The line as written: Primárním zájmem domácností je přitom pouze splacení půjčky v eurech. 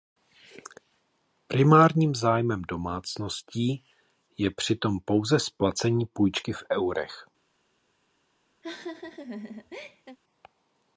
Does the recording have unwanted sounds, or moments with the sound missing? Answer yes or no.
yes